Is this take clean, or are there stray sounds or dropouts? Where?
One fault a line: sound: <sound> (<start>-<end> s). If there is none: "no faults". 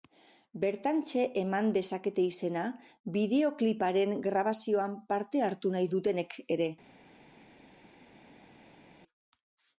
no faults